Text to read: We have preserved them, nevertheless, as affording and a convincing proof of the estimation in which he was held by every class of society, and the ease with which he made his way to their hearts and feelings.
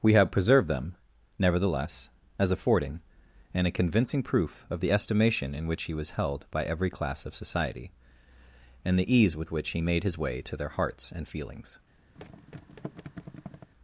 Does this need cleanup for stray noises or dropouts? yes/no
yes